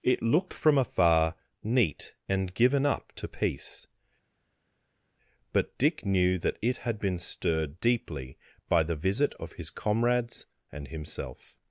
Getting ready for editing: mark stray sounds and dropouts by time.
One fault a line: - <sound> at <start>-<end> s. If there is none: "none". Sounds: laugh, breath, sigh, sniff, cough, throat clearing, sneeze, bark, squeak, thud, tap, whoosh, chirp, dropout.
none